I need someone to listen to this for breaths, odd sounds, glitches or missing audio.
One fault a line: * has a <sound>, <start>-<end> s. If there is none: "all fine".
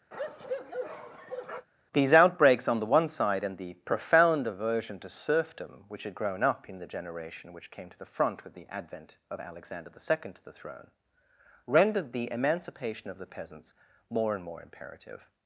* has a bark, 0.1-1.7 s